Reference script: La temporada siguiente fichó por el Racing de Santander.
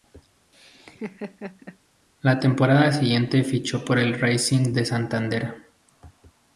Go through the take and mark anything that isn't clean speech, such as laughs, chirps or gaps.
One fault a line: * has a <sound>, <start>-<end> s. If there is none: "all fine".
* has a laugh, 0.5-1.8 s